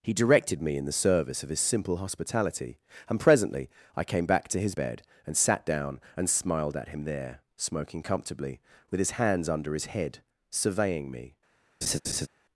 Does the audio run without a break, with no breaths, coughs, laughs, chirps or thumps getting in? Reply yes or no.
no